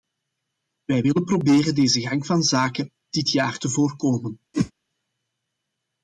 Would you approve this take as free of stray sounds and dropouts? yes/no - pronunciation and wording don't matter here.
no